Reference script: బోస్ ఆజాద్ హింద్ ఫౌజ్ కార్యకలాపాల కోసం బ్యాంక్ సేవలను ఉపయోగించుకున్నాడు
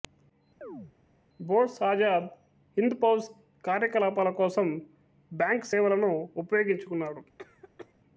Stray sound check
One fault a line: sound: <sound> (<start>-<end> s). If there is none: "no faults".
sound: chirp (0.6-0.9 s)
sound: cough (7.4-7.9 s)